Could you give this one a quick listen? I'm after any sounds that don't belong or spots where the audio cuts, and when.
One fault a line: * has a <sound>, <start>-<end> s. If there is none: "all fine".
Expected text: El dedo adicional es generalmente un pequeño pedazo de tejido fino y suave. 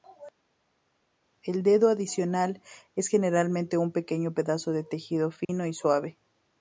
* has a dropout, 5.4-5.5 s